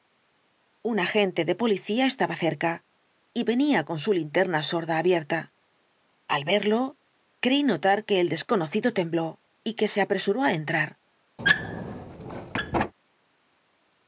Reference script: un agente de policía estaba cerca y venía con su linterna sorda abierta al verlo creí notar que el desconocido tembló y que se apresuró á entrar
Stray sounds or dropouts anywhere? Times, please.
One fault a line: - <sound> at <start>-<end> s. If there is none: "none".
- squeak at 11.4-12.9 s